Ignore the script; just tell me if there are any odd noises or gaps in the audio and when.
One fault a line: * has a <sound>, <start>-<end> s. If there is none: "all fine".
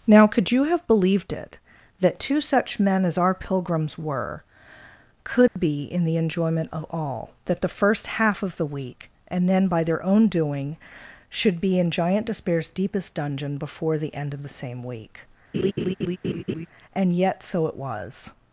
* has a dropout, 5.5-5.6 s
* has a laugh, 15.5-16.7 s